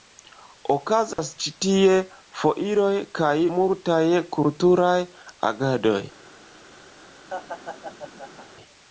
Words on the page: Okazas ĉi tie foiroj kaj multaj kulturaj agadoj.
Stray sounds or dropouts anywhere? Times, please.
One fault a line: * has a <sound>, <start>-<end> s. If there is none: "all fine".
* has a dropout, 1.1-1.2 s
* has a laugh, 7.3-8.5 s